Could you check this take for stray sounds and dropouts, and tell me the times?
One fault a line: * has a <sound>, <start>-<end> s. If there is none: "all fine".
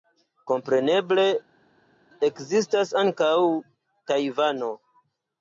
all fine